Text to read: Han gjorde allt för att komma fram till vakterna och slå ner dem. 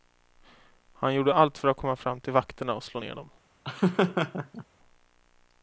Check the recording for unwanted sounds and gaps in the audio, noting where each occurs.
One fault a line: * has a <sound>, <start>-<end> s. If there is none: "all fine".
* has a laugh, 3.6-4.7 s